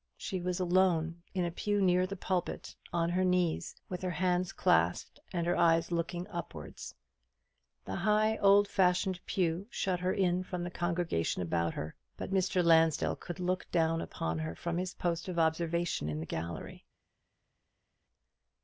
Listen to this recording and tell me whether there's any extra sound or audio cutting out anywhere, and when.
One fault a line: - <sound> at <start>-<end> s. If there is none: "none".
none